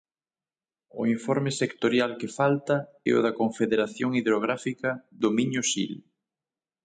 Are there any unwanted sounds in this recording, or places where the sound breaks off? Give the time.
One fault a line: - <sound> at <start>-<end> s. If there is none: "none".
none